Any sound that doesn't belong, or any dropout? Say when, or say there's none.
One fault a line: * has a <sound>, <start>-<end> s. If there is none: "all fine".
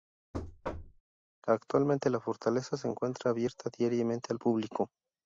* has a thud, 0.3-1.0 s